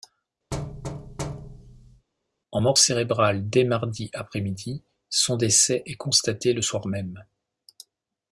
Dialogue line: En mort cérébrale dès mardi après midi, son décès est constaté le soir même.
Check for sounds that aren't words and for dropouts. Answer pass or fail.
fail